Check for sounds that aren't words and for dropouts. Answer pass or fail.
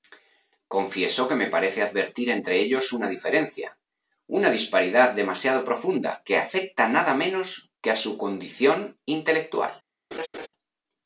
fail